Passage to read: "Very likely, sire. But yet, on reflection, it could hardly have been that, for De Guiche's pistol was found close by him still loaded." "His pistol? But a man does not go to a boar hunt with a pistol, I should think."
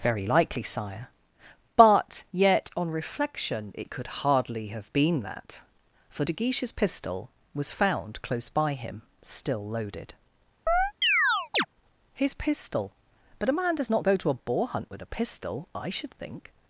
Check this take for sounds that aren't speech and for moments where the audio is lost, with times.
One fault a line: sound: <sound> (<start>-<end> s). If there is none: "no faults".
sound: chirp (10.7-11.7 s)